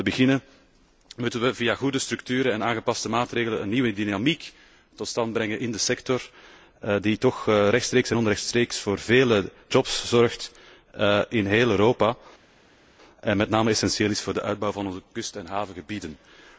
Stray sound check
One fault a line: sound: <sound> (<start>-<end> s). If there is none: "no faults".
no faults